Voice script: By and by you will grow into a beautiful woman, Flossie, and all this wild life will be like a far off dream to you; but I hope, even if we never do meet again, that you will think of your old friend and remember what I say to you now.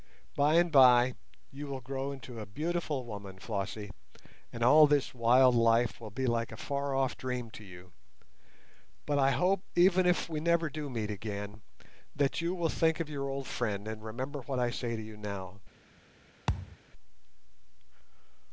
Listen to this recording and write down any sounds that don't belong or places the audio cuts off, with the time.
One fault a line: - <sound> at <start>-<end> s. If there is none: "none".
- thud at 16.5-16.8 s